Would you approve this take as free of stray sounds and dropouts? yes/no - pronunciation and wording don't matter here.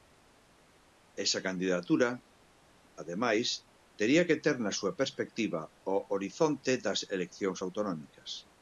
yes